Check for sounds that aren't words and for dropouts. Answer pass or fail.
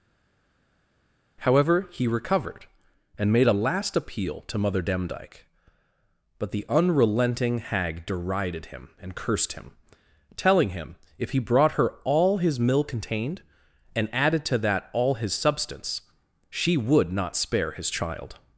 pass